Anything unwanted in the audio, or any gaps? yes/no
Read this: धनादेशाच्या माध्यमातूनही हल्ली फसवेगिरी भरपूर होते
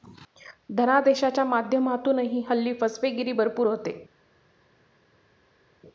no